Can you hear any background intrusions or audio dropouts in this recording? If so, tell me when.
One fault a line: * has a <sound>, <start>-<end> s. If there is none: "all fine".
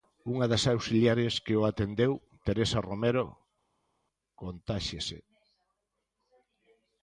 all fine